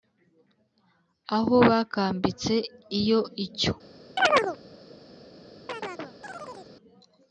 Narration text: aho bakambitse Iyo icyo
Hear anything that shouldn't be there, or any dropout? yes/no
yes